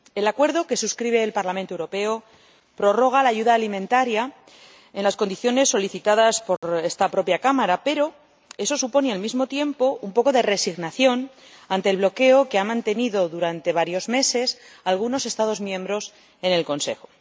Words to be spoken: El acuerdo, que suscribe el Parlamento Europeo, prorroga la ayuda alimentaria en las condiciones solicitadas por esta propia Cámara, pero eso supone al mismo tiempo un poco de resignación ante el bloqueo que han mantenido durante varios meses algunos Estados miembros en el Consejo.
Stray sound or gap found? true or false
true